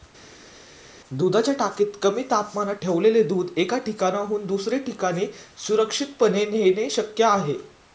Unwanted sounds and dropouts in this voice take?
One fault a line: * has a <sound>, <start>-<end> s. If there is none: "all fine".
all fine